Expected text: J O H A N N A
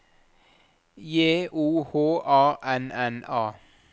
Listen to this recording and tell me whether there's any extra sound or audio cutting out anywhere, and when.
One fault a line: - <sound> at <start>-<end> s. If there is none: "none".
none